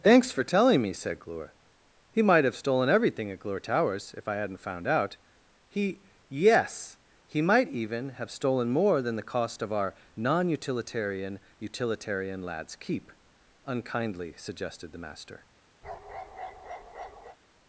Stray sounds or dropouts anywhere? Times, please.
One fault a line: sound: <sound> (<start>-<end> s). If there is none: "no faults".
sound: bark (15.8-17.4 s)